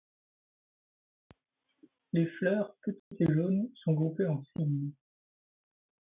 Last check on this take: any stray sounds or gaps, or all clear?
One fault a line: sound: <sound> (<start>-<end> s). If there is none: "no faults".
sound: dropout (3.0-3.1 s)